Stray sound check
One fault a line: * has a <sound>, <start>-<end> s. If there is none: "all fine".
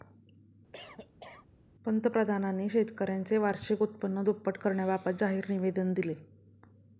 * has a cough, 0.7-1.5 s